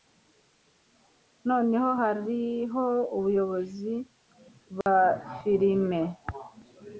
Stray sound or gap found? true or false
true